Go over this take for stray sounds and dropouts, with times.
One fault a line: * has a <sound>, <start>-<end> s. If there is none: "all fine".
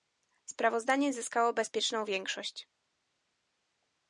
all fine